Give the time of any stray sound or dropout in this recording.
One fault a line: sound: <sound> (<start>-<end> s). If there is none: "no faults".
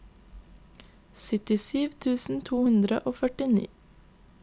no faults